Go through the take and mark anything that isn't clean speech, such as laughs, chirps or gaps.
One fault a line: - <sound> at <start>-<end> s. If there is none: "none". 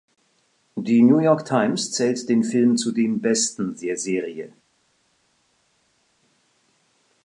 none